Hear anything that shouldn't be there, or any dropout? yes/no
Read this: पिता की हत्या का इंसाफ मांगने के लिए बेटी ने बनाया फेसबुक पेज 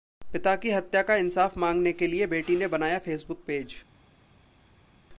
no